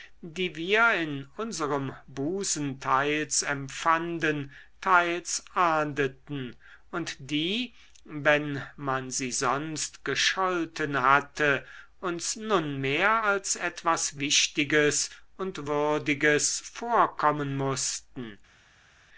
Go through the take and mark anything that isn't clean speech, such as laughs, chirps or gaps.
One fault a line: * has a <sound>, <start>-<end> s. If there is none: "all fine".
all fine